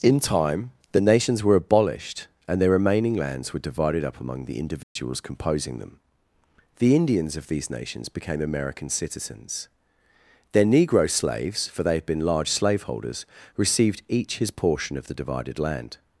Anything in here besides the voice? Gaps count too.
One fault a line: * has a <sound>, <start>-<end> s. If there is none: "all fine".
* has a dropout, 4.8-5.0 s